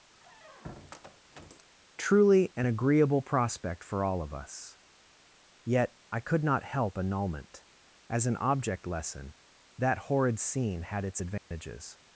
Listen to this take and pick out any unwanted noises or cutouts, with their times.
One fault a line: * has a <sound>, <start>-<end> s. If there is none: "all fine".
* has a squeak, 0.1-1.7 s
* has a dropout, 11.4-11.5 s